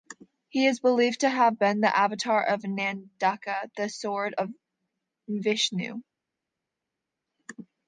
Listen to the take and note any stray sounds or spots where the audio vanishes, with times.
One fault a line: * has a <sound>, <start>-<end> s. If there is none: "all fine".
all fine